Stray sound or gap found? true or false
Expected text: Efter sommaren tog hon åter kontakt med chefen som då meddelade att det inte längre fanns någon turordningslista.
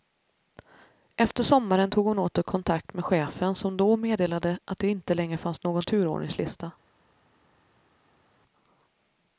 false